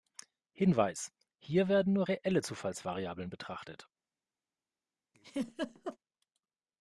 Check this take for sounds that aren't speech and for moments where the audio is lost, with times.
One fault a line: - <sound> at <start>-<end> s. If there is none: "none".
- laugh at 5.1-6.0 s